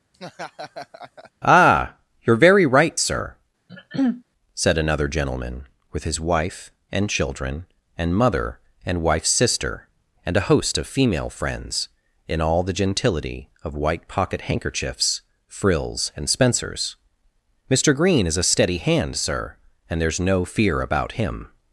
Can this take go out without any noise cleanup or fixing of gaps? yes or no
no